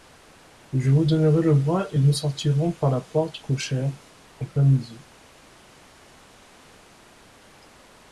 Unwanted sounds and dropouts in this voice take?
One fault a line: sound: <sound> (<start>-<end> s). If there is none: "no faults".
no faults